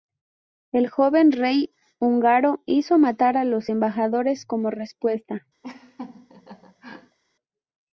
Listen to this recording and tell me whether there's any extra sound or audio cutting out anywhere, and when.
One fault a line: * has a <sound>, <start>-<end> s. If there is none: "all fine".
* has a laugh, 5.6-7.2 s